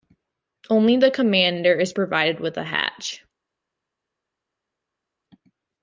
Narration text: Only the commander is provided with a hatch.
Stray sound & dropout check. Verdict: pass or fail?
pass